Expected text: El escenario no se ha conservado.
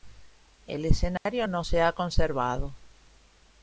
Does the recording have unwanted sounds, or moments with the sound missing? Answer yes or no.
yes